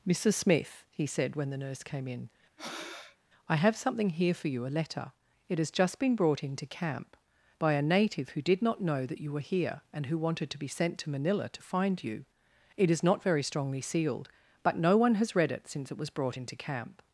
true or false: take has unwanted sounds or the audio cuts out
true